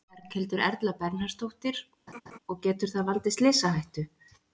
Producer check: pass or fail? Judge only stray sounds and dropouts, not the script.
fail